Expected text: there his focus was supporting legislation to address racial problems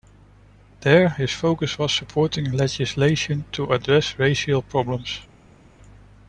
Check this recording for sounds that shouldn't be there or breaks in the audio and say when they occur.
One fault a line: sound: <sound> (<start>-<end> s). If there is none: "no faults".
no faults